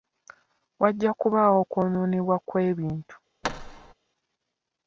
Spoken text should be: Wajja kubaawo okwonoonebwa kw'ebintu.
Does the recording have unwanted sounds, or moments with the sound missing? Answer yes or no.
yes